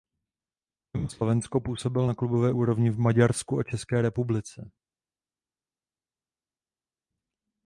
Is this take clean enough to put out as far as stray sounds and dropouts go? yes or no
yes